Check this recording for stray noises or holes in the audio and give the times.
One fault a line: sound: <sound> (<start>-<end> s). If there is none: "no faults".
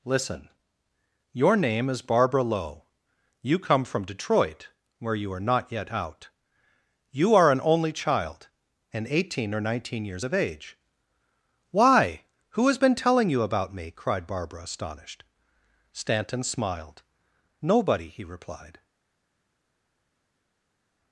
no faults